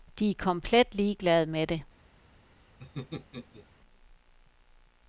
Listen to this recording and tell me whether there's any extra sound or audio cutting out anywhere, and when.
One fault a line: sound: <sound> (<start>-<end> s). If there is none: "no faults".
sound: laugh (2.8-3.7 s)